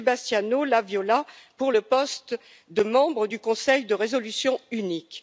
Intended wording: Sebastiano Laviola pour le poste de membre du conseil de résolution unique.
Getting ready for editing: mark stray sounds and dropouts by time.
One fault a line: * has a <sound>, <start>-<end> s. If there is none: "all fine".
all fine